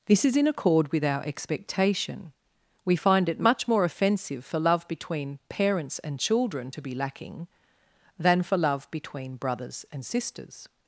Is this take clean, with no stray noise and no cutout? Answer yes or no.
yes